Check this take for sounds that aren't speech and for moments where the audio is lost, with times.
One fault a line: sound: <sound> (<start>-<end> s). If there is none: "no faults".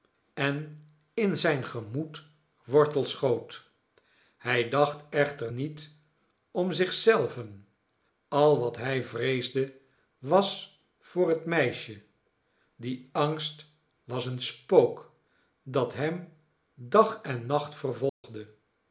sound: dropout (18.1-18.2 s)